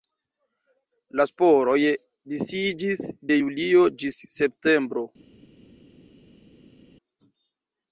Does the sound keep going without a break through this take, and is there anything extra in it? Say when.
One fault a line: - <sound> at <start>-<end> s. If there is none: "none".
none